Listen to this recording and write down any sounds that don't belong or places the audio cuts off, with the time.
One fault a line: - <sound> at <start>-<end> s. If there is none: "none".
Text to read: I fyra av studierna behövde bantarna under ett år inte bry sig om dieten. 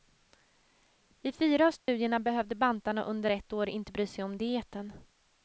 - dropout at 1.8-1.9 s